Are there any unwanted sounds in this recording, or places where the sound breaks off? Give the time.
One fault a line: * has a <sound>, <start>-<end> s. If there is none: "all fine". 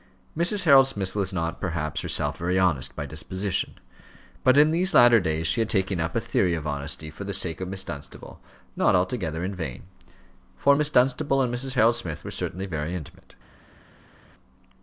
all fine